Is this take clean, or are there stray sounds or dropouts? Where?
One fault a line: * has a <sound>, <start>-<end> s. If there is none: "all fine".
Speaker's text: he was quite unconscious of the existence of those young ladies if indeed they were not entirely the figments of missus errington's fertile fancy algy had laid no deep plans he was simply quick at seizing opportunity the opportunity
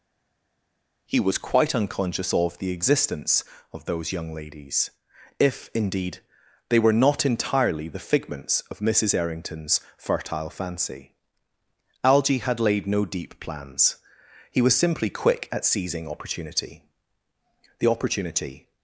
all fine